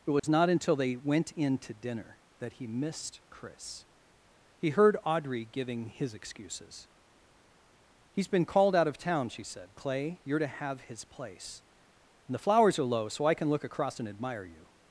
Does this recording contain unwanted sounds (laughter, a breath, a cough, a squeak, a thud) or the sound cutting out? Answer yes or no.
yes